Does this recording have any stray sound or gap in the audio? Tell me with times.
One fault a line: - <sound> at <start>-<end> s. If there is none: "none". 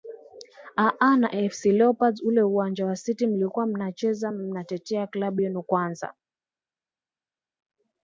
none